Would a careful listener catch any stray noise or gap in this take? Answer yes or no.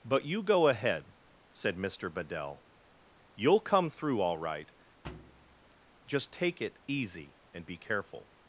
yes